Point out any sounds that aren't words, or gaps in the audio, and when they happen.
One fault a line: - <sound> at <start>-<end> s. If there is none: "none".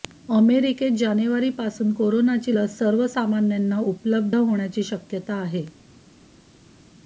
none